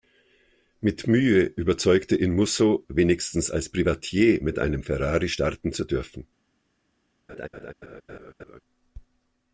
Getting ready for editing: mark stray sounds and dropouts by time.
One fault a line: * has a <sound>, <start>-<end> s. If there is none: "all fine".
* has a laugh, 7.3-8.6 s